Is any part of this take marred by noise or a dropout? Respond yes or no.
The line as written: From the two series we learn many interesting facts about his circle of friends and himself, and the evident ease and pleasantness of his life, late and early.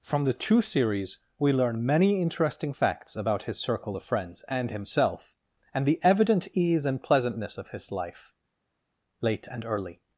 no